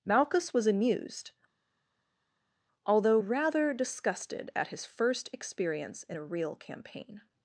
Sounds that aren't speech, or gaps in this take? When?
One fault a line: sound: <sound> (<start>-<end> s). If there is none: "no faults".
no faults